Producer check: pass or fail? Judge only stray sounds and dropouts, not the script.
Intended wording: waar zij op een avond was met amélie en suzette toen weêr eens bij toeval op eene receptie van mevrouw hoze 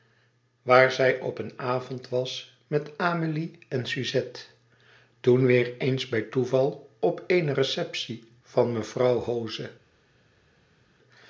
pass